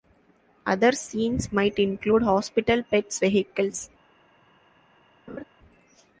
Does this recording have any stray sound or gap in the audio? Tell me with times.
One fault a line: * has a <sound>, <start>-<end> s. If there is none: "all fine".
* has a laugh, 5.3-5.4 s